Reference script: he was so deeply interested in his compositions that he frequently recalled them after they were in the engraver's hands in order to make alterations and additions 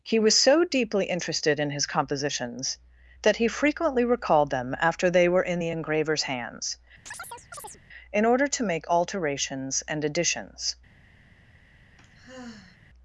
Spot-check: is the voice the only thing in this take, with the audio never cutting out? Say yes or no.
no